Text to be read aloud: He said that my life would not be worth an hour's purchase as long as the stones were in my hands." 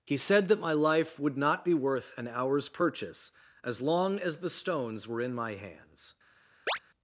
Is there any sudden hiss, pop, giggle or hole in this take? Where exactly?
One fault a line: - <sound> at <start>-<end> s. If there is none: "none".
- chirp at 6.7-6.8 s